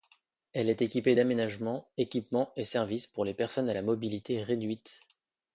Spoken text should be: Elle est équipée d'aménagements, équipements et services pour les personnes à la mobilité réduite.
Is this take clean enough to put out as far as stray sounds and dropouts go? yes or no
yes